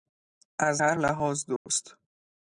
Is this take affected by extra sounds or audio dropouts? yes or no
yes